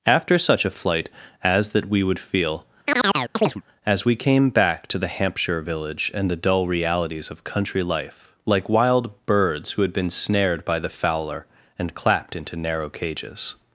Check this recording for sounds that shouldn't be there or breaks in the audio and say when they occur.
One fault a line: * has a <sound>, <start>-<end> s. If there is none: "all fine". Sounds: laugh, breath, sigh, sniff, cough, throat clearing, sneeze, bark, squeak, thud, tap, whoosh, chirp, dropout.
* has a chirp, 2.9-3.6 s